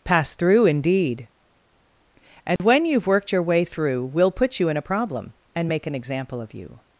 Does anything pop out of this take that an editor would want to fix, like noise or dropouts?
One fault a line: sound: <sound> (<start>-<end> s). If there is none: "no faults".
sound: dropout (2.6-2.6 s)